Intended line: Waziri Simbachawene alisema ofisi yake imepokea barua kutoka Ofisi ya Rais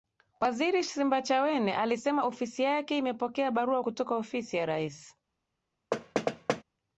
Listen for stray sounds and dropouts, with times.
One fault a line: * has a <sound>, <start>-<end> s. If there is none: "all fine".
* has a thud, 5.9-6.6 s